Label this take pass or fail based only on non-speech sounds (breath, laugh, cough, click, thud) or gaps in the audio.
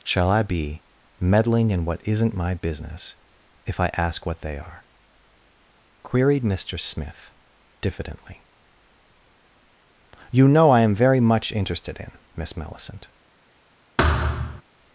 fail